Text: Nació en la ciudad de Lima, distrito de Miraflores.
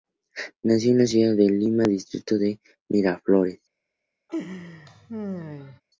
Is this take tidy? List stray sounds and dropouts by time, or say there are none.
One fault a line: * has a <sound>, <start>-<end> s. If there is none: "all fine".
* has a laugh, 4.3-5.8 s